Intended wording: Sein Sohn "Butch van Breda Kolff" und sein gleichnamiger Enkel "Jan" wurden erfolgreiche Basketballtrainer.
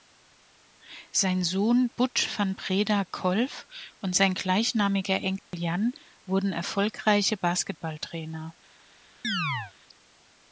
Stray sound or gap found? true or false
true